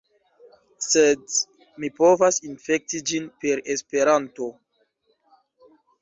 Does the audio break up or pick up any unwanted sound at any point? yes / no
no